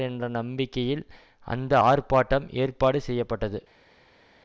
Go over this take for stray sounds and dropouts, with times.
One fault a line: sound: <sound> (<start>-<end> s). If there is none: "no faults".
no faults